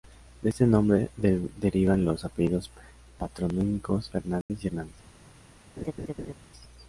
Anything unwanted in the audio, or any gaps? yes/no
yes